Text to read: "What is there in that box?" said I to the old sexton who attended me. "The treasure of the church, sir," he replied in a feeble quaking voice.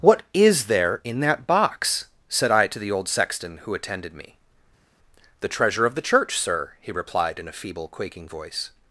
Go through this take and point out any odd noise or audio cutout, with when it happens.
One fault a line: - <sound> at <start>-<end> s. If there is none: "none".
none